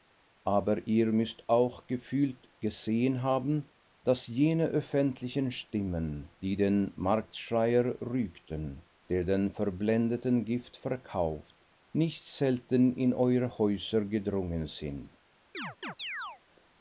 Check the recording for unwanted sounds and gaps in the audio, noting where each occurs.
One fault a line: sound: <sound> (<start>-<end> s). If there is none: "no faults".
sound: chirp (15.5-16.4 s)